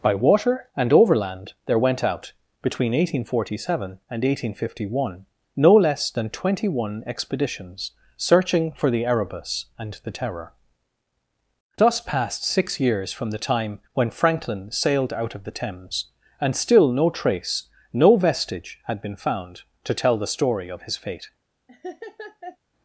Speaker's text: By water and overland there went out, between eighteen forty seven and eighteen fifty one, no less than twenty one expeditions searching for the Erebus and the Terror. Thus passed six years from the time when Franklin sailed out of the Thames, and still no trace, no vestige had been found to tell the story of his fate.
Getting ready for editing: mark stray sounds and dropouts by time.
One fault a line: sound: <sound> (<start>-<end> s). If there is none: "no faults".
sound: laugh (21.7-22.6 s)